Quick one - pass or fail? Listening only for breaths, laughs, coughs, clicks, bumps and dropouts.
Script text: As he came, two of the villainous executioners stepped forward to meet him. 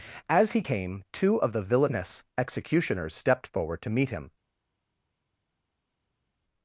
pass